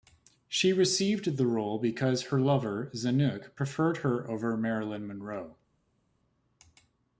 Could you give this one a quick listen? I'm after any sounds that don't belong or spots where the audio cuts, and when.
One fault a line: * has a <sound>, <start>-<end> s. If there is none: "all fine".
all fine